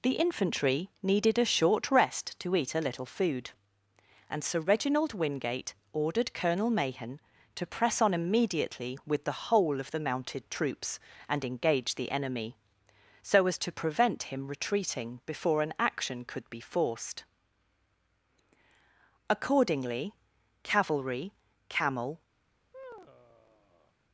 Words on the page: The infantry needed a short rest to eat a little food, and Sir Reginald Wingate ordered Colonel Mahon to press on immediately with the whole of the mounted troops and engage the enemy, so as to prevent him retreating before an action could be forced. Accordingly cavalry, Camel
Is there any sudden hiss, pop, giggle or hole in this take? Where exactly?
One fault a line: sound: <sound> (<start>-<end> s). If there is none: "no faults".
sound: sigh (22.7-23.9 s)